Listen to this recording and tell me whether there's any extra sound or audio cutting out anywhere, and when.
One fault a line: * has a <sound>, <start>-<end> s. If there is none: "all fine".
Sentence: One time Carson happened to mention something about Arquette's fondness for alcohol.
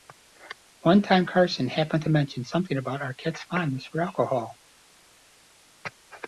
all fine